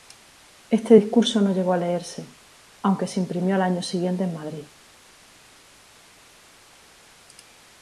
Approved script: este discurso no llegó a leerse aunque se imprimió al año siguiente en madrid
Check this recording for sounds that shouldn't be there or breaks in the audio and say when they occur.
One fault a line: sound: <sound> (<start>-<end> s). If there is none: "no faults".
no faults